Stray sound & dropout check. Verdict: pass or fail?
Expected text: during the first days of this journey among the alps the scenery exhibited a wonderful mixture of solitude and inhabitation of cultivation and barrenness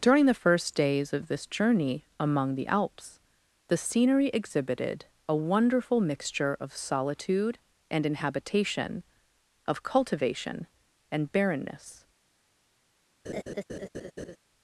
fail